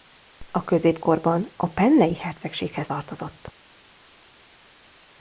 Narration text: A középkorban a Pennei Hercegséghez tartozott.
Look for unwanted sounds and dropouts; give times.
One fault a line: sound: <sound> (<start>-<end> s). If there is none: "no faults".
no faults